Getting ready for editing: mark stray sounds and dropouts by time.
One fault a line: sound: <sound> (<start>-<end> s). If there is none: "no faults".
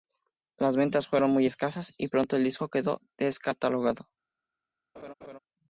sound: laugh (5.0-5.4 s)